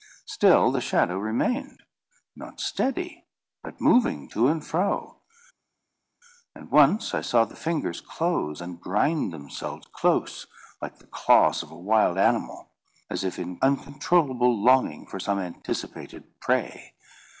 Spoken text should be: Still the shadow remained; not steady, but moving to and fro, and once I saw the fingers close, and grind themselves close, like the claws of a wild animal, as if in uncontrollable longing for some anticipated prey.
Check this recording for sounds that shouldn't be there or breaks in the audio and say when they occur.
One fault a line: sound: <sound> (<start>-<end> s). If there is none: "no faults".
no faults